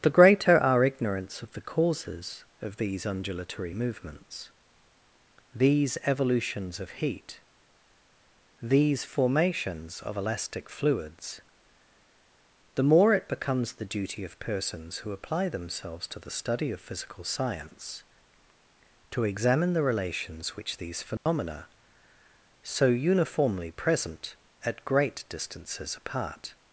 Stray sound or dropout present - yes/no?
yes